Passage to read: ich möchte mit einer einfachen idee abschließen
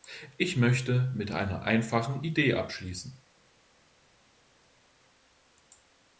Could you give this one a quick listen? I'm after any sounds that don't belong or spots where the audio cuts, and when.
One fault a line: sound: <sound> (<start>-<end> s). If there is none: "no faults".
no faults